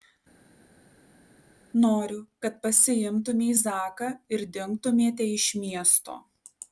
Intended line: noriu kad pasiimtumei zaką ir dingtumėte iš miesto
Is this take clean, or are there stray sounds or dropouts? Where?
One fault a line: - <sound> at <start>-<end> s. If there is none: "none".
none